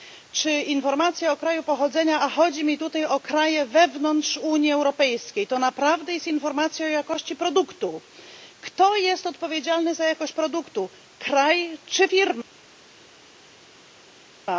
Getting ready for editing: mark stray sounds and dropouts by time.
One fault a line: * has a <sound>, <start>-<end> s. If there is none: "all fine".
all fine